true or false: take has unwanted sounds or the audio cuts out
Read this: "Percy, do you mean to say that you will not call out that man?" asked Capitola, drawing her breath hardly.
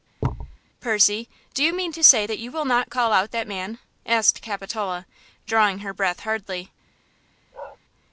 true